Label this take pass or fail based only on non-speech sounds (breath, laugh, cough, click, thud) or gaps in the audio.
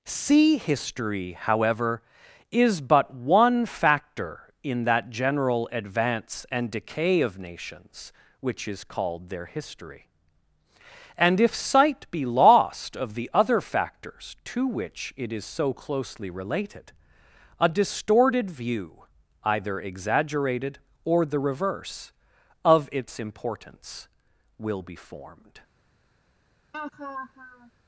fail